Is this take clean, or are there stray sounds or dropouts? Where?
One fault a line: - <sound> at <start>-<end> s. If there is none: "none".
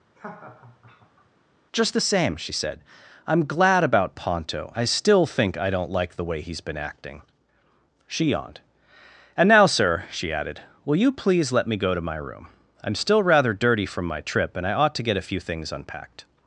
- laugh at 0.1-1.3 s